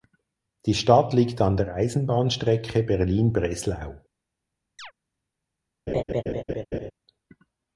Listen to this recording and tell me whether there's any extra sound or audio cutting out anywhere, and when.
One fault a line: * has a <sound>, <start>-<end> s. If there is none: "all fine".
* has a chirp, 4.8-4.9 s
* has a laugh, 5.9-6.9 s